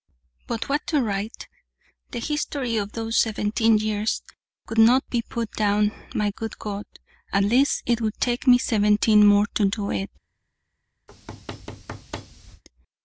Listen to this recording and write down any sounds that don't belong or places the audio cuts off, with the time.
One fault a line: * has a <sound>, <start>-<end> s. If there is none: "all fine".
* has a thud, 11.1-12.6 s